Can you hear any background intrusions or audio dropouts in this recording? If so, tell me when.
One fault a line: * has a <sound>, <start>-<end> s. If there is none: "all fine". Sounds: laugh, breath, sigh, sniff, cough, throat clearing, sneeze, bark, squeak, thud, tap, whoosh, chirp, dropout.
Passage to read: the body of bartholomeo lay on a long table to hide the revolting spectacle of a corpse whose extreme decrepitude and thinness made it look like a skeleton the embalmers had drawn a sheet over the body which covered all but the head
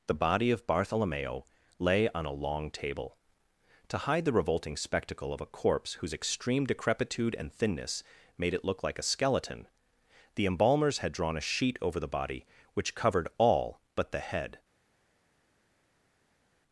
all fine